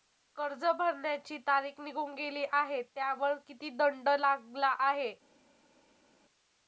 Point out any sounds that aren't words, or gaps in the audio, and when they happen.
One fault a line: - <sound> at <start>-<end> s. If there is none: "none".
none